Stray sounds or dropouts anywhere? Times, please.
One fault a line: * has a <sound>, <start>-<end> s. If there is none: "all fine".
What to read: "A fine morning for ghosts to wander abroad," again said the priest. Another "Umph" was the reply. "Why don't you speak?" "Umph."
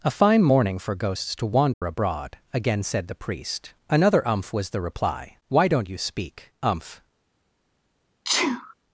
* has a dropout, 1.7-1.8 s
* has a sneeze, 8.2-8.7 s